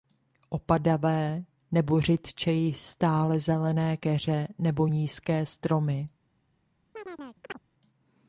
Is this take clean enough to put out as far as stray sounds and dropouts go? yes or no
no